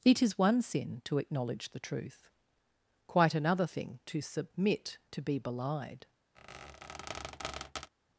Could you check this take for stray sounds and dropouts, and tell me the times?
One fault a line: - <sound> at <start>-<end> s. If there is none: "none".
- squeak at 6.4-7.9 s